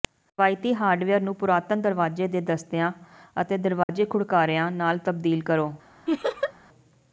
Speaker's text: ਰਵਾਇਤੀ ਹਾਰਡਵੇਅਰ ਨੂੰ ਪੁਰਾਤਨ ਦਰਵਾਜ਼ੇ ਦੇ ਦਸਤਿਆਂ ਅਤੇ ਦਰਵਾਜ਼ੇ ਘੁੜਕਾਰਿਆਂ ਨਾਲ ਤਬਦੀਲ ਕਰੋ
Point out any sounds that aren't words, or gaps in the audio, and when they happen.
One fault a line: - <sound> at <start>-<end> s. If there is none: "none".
- dropout at 3.8-3.9 s
- laugh at 6.1-6.5 s